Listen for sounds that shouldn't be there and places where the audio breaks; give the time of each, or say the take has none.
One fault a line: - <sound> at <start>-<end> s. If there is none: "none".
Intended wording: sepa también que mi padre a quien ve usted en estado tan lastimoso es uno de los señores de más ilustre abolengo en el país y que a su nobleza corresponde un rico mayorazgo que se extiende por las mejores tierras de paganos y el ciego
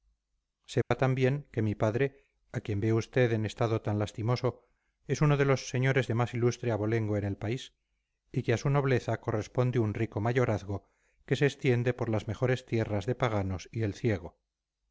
- dropout at 0.8-0.9 s